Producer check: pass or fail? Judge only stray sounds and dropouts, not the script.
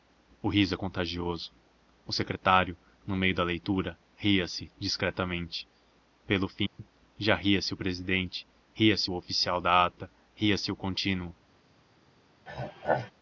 fail